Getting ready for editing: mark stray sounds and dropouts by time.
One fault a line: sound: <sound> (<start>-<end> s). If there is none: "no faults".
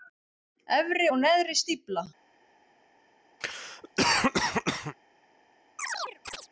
sound: cough (3.4-5.0 s)
sound: chirp (5.8-6.5 s)